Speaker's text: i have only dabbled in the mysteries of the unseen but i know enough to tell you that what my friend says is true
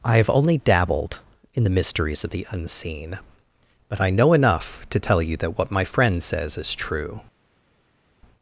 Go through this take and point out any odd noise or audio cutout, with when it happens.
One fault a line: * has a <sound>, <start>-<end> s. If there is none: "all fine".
all fine